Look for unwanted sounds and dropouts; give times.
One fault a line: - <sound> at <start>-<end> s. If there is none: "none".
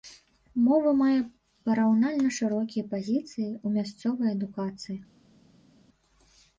none